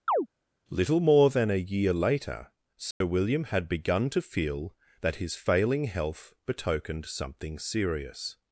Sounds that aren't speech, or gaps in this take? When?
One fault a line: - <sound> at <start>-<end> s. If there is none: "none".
- chirp at 0.1-0.3 s
- dropout at 2.9-3.0 s